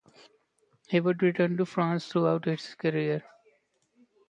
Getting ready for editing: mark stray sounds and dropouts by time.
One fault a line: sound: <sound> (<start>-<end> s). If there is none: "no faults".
no faults